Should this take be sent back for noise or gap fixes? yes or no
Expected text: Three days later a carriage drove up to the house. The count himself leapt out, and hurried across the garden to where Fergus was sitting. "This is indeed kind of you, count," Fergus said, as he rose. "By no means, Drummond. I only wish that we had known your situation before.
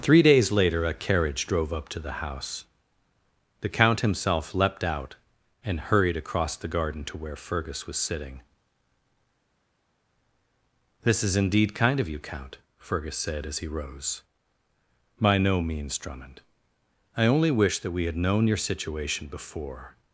no